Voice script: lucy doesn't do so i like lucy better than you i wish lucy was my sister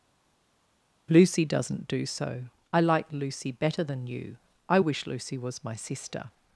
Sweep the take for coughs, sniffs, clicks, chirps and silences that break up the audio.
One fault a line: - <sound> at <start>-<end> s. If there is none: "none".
none